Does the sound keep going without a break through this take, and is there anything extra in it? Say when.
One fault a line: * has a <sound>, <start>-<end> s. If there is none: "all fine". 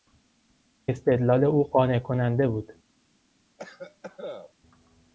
* has a cough, 3.6-4.5 s